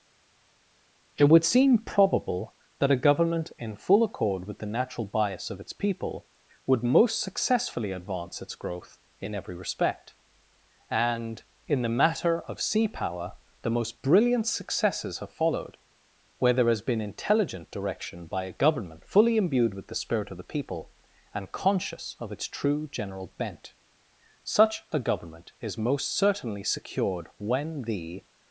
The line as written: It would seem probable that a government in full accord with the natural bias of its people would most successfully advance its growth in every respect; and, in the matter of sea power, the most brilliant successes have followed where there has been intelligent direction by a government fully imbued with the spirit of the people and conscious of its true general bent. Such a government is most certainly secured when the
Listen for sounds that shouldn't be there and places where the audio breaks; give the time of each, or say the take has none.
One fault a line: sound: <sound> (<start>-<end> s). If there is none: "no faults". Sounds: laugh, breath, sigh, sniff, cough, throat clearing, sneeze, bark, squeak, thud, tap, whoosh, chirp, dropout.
no faults